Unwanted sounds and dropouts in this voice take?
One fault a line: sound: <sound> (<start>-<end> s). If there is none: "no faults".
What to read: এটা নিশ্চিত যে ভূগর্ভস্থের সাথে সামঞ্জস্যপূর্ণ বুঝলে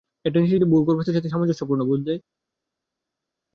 no faults